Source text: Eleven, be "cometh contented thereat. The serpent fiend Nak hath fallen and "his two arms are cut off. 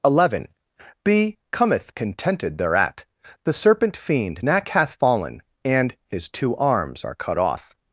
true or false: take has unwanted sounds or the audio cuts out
false